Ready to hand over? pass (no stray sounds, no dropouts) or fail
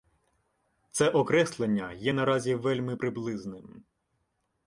pass